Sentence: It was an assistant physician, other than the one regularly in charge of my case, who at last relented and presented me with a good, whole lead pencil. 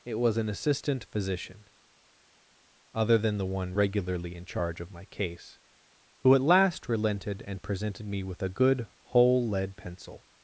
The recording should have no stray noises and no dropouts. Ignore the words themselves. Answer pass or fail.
pass